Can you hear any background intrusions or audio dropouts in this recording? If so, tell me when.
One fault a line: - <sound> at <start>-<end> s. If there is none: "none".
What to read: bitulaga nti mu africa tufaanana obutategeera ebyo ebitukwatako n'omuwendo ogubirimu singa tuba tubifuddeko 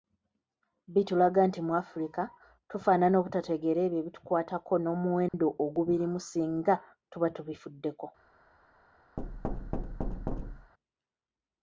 - dropout at 5.3-5.3 s
- thud at 9.2-10.7 s